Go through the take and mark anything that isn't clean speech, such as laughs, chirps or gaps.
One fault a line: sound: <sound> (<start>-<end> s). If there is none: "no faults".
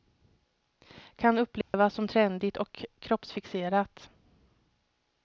sound: dropout (1.6-1.7 s)